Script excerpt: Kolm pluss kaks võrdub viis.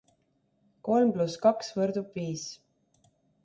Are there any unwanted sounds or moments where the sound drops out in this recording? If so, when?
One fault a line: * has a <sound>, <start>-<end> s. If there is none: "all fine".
all fine